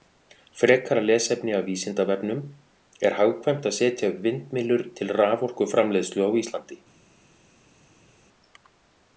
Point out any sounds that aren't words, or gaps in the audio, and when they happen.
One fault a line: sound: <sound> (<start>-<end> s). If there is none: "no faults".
no faults